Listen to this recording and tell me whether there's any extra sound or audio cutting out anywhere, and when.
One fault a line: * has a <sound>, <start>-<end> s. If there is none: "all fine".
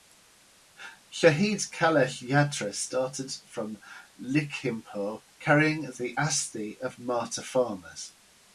all fine